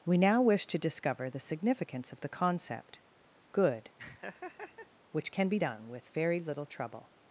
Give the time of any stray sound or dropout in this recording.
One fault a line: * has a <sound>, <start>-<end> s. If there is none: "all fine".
* has a laugh, 4.0-4.9 s